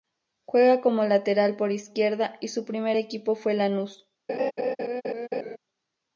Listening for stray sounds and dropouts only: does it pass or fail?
fail